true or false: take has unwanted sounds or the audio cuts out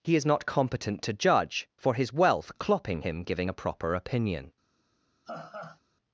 true